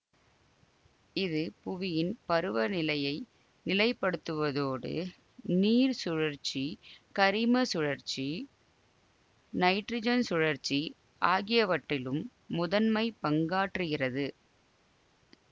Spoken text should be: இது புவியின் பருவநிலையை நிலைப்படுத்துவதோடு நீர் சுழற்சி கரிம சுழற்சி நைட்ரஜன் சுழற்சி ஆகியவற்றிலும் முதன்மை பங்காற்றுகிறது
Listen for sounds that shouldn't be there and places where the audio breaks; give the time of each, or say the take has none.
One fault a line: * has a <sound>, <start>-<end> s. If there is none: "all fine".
all fine